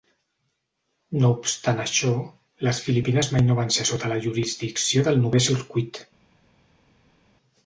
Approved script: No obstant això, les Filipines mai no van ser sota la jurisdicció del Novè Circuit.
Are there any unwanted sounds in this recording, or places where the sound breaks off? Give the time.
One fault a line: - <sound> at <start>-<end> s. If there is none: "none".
none